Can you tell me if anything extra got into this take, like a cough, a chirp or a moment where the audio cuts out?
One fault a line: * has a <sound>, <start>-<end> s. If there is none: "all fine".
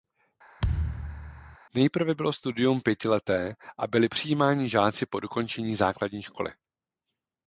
* has a thud, 0.6-1.6 s